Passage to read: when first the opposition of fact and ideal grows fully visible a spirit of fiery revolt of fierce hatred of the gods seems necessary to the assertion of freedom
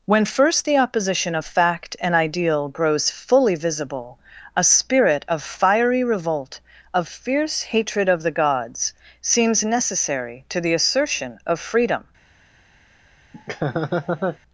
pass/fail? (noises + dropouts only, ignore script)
fail